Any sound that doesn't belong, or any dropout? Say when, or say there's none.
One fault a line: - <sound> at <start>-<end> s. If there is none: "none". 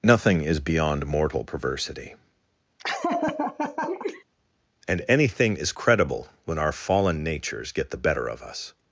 - laugh at 2.8-4.2 s